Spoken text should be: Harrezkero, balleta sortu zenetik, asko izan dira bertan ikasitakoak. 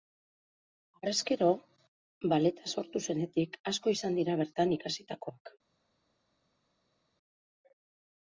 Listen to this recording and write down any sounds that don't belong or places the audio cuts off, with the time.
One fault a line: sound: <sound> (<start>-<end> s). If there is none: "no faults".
no faults